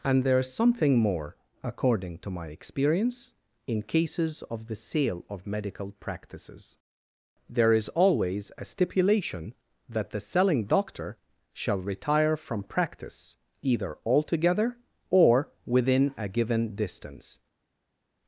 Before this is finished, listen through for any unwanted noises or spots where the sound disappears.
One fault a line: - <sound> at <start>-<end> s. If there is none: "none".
none